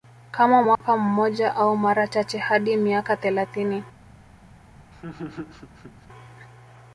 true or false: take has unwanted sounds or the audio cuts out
true